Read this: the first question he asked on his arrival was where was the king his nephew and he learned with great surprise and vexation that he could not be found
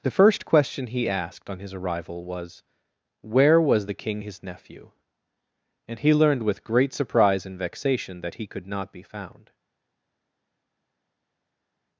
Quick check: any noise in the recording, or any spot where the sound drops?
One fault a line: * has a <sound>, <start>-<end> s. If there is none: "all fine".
all fine